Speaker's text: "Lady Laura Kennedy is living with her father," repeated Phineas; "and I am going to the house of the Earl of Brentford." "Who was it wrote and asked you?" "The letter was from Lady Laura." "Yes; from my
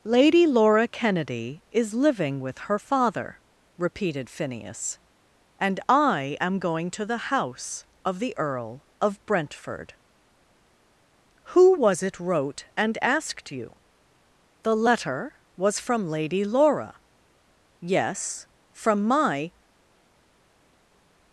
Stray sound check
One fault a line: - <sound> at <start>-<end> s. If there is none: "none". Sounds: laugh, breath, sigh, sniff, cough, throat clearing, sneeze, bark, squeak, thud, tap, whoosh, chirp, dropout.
none